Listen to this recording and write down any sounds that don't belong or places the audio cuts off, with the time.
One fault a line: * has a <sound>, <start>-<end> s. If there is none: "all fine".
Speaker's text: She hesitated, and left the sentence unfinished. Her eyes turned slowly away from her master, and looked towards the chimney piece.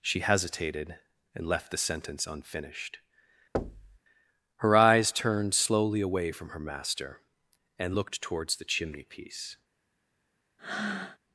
* has a thud, 3.5-4.0 s
* has a breath, 10.6-11.2 s